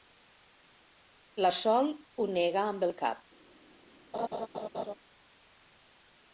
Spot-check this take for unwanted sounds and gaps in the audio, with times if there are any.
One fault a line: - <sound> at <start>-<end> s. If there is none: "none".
- laugh at 4.1-4.9 s